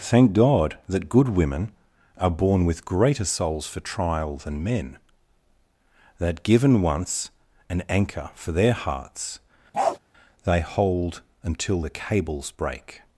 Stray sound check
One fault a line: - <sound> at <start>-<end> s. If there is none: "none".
- bark at 9.7-10.0 s